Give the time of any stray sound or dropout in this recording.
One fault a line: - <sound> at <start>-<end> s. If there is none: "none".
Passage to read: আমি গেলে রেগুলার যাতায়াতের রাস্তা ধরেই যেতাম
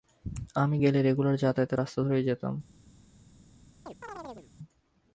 - chirp at 3.9-4.5 s